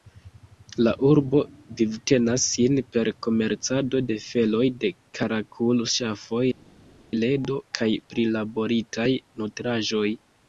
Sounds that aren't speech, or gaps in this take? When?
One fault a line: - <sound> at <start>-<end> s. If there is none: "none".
none